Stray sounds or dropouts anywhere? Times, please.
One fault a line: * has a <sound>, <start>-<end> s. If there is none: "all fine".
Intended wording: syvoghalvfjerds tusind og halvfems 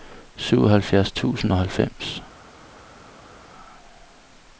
all fine